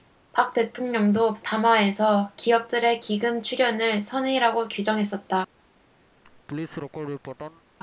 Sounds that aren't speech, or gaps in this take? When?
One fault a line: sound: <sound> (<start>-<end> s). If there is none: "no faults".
sound: laugh (6.2-7.6 s)